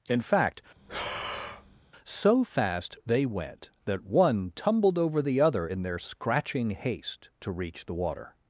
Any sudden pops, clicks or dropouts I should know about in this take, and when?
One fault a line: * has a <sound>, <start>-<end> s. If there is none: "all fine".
* has a breath, 0.8-1.8 s